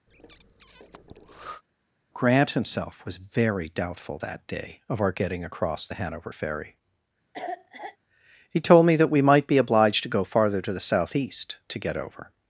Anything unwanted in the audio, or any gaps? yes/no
yes